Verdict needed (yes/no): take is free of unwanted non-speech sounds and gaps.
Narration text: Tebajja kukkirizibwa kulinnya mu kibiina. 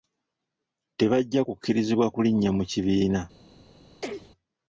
no